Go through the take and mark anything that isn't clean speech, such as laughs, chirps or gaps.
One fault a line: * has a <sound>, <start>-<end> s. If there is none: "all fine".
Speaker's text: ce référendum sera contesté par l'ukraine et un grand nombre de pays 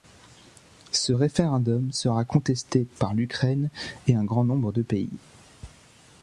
all fine